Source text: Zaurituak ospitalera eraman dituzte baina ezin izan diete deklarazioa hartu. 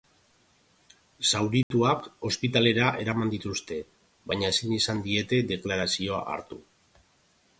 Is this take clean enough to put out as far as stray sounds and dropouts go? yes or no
no